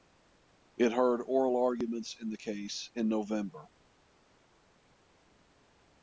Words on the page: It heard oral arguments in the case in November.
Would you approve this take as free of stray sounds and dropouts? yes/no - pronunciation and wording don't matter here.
yes